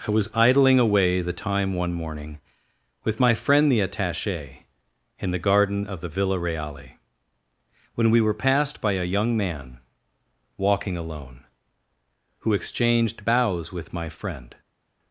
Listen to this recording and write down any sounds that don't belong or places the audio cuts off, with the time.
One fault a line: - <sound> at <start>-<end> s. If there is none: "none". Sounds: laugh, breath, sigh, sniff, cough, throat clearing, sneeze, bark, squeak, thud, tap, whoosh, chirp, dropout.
none